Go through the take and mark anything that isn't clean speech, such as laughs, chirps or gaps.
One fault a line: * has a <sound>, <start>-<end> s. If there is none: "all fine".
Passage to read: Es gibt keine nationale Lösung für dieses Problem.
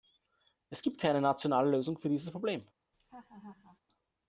* has a laugh, 2.9-3.8 s